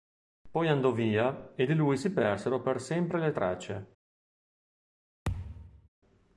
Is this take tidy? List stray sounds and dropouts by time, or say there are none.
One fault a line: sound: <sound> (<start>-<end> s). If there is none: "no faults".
sound: thud (5.2-5.9 s)